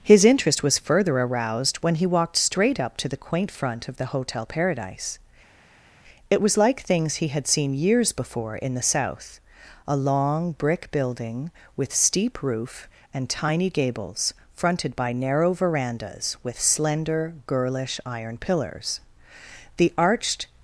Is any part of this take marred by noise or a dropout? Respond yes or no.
no